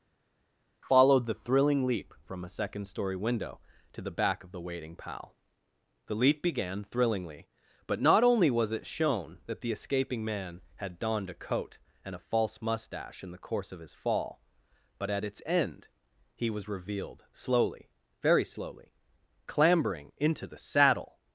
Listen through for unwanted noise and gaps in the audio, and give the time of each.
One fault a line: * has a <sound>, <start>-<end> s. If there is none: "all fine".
all fine